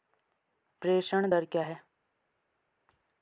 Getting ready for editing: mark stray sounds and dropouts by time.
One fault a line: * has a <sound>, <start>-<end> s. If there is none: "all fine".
all fine